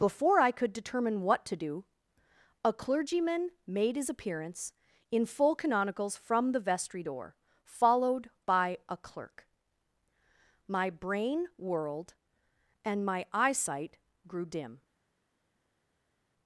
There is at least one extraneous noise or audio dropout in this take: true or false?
false